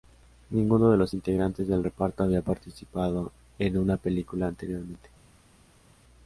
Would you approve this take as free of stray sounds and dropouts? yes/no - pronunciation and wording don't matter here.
yes